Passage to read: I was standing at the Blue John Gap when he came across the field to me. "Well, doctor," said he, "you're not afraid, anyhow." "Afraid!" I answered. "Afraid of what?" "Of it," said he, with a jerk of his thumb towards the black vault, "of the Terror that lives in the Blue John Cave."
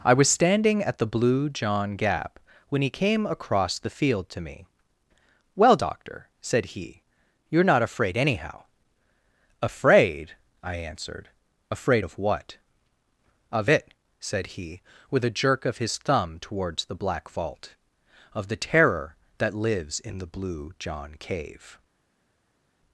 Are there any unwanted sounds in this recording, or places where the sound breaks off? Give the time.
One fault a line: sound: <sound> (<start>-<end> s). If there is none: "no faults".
no faults